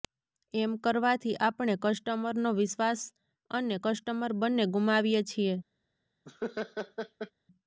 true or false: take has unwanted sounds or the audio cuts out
true